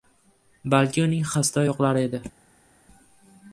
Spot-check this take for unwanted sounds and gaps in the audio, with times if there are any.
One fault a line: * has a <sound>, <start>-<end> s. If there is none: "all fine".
all fine